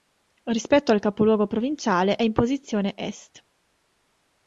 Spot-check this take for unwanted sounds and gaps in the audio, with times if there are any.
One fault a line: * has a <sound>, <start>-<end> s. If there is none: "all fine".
all fine